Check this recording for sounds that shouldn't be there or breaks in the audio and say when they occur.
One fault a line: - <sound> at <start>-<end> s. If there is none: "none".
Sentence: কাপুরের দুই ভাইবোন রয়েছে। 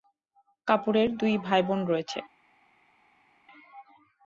none